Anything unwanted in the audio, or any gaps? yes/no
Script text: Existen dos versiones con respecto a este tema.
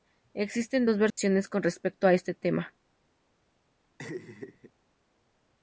yes